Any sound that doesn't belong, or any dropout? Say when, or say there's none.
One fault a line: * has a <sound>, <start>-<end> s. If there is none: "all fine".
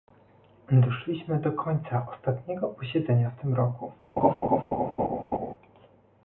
* has a laugh, 4.2-5.5 s